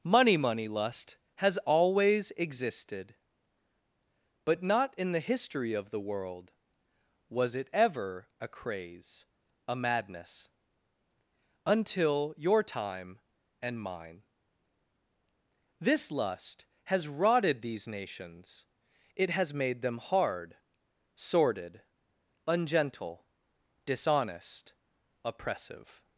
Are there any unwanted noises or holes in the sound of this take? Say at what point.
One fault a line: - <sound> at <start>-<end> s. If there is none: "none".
none